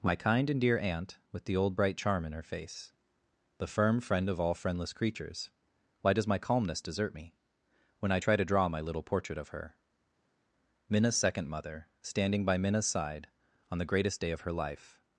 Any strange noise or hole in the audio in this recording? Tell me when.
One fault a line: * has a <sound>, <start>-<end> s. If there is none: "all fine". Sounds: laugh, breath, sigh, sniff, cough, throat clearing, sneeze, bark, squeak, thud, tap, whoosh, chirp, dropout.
all fine